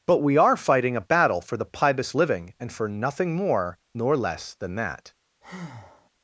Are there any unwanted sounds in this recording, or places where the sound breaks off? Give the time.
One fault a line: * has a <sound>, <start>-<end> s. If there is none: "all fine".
* has a breath, 5.4-6.1 s